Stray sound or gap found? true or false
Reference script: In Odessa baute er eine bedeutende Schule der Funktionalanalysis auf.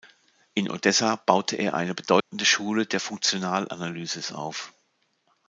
true